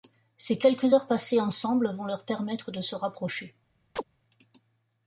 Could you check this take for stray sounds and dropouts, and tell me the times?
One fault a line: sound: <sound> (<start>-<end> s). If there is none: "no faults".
sound: chirp (4.0-4.0 s)